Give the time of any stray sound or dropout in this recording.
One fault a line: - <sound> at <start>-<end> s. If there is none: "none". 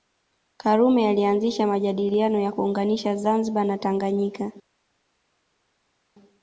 none